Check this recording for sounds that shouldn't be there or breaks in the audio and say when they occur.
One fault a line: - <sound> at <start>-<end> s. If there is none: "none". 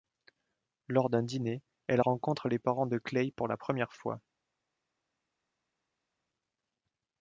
none